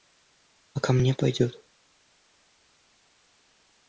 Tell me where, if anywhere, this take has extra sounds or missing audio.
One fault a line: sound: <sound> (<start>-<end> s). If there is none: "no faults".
no faults